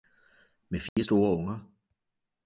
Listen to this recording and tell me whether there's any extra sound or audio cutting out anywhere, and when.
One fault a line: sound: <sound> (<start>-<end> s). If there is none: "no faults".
sound: dropout (0.9-1.0 s)